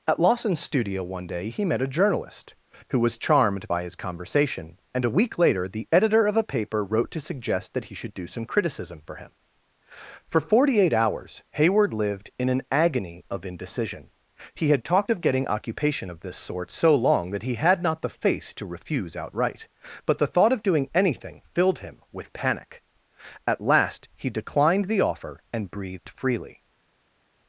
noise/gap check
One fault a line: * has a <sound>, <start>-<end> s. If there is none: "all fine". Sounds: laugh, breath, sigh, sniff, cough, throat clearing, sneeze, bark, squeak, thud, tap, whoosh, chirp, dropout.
all fine